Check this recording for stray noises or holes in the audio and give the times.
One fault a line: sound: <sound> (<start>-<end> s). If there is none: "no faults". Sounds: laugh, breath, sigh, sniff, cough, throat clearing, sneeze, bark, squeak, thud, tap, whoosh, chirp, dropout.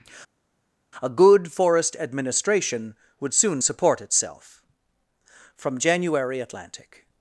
no faults